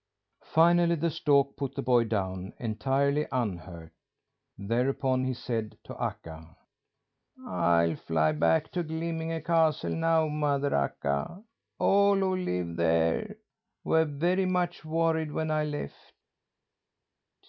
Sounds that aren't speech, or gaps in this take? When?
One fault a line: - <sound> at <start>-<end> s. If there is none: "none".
none